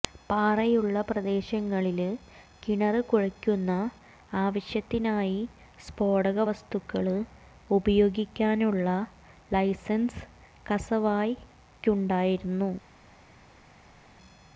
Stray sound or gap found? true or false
false